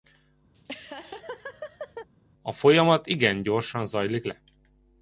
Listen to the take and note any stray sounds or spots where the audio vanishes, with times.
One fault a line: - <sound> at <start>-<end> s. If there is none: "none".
- laugh at 0.5-2.1 s